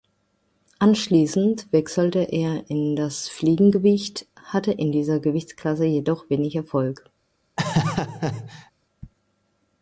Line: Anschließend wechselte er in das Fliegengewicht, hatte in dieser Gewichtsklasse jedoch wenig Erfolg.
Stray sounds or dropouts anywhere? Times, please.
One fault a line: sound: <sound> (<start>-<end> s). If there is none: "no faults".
sound: laugh (7.6-8.7 s)